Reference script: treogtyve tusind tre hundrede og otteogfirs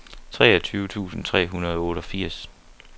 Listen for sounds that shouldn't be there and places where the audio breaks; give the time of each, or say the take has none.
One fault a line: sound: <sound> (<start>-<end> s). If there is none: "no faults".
no faults